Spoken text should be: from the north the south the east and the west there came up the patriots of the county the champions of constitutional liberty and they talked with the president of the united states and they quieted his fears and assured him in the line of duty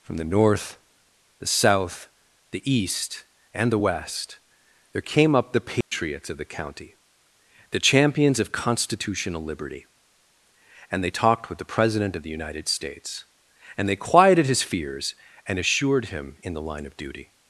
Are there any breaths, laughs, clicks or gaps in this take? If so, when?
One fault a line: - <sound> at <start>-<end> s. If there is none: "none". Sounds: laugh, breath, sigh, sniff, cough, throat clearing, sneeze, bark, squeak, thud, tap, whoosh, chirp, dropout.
- dropout at 5.8-5.9 s